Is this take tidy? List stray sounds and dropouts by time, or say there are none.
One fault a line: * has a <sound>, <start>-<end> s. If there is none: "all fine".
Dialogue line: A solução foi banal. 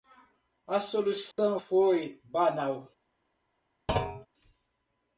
* has a dropout, 1.3-1.4 s
* has a thud, 3.9-4.3 s